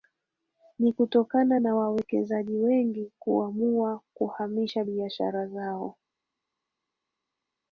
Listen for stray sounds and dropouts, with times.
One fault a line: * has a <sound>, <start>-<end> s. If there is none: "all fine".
all fine